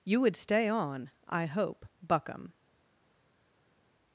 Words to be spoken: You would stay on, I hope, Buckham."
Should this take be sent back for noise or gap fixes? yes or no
no